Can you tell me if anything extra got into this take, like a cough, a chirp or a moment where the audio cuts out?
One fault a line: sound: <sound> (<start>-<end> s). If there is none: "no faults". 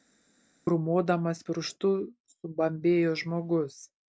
no faults